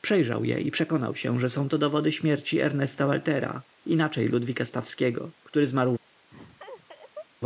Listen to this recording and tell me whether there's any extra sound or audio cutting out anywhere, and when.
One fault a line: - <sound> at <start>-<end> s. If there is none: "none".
- laugh at 6.3-7.3 s